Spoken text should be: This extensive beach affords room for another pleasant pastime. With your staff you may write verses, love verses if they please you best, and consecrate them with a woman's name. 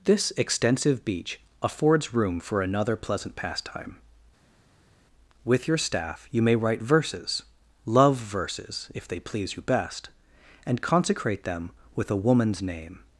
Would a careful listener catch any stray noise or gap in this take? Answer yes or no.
no